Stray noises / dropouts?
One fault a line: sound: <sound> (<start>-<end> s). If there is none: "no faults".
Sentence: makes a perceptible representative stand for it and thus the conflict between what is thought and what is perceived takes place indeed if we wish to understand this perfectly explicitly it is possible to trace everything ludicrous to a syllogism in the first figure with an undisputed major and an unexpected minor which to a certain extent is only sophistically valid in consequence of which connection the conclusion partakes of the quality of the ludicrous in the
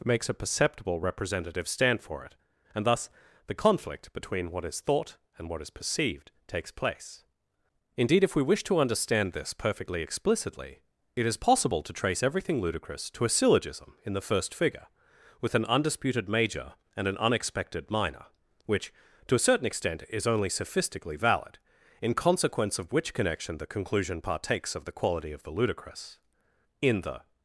no faults